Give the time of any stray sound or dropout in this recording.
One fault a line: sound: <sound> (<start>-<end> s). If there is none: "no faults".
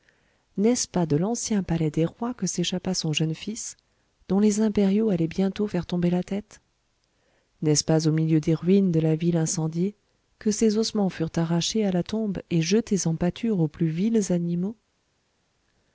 no faults